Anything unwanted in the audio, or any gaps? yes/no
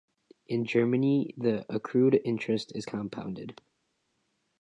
no